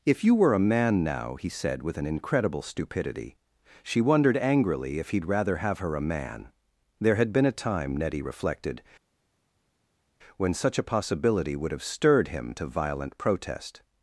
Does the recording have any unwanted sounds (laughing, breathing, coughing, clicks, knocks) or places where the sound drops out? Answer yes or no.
no